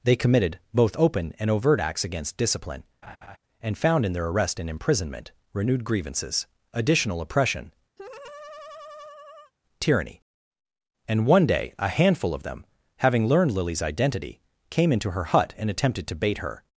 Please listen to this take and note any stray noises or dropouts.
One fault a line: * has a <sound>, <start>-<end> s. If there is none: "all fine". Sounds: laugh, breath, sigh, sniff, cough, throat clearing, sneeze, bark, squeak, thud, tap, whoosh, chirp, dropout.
* has a laugh, 3.0-3.4 s
* has a laugh, 8.0-9.5 s